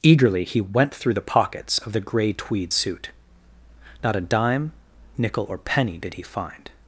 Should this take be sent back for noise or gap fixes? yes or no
no